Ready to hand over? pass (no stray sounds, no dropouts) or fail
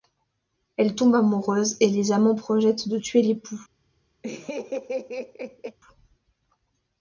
fail